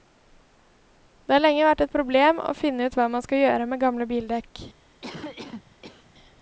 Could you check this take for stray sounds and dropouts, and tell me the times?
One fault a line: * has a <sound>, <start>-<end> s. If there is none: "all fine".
* has a cough, 5.0-6.1 s